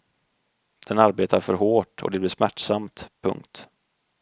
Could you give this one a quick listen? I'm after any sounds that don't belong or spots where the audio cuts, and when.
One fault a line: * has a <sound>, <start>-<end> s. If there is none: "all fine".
all fine